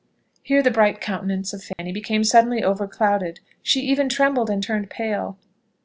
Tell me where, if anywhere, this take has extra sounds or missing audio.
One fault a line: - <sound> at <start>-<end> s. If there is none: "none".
- dropout at 1.7-1.8 s